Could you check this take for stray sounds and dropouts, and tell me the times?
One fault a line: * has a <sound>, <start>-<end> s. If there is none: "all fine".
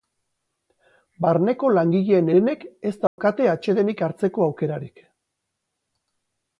* has a dropout, 3.1-3.2 s